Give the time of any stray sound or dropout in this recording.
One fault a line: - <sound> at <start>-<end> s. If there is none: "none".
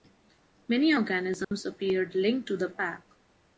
- dropout at 1.4-1.5 s